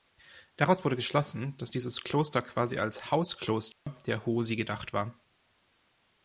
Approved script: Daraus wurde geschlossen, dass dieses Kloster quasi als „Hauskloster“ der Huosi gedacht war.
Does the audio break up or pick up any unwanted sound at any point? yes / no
yes